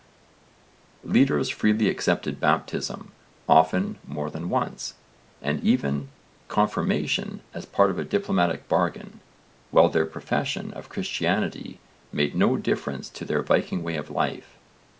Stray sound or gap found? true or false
false